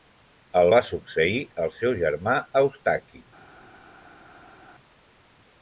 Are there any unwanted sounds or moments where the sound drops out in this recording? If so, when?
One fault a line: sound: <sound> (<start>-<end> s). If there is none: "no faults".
no faults